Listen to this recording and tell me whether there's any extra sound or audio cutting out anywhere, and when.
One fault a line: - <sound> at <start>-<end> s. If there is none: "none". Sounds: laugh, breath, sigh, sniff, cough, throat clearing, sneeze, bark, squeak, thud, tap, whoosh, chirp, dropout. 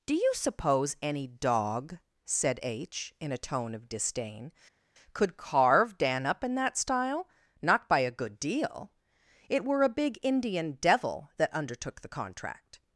none